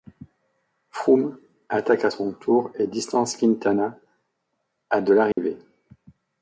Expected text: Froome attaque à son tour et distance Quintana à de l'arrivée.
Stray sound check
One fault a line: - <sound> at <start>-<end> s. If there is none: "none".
- dropout at 5.3-5.4 s